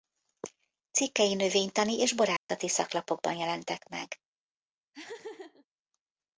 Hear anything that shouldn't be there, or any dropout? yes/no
yes